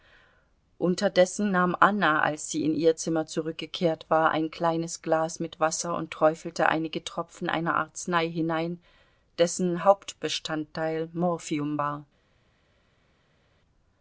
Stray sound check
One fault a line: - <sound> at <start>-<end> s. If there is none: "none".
none